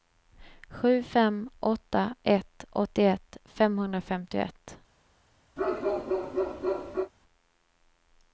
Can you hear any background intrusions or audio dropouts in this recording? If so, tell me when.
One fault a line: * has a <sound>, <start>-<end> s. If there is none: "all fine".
* has a bark, 5.6-7.1 s